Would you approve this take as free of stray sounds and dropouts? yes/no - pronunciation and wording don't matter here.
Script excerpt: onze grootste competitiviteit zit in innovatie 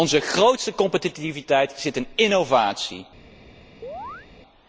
no